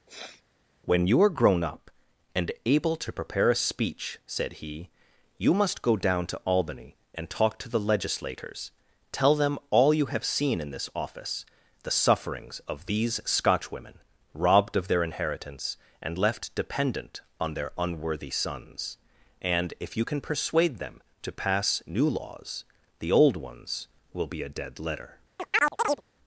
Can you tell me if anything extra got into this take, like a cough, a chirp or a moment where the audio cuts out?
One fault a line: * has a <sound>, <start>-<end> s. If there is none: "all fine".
* has a sniff, 0.1-0.4 s
* has a chirp, 25.4-26.0 s